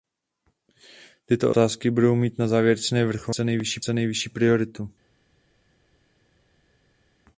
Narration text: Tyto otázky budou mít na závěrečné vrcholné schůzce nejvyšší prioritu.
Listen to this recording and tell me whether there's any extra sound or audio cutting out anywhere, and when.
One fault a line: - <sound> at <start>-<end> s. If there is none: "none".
none